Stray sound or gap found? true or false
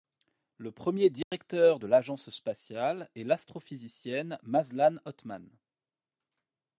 true